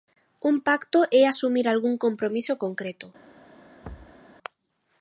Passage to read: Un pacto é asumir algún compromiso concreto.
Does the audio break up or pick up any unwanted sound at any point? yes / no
yes